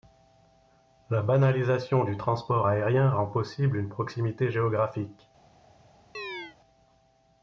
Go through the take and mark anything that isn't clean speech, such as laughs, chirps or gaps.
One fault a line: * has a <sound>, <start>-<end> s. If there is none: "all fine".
* has a chirp, 6.1-6.6 s